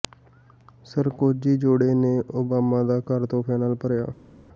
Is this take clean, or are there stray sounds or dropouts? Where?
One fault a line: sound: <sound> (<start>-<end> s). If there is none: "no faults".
no faults